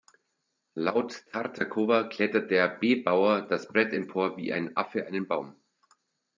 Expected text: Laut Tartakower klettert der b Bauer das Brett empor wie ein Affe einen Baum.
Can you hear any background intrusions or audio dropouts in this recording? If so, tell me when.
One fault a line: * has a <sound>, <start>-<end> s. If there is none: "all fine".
all fine